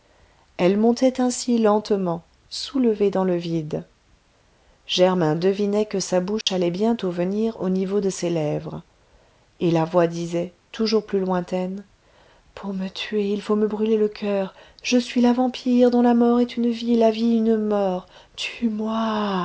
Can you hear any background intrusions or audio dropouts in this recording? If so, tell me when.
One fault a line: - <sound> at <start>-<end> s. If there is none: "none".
- dropout at 6.4-6.5 s